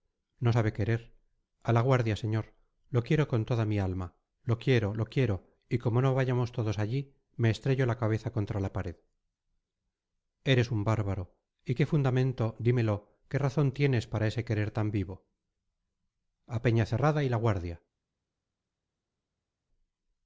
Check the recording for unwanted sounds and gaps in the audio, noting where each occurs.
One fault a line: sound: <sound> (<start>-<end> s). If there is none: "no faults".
no faults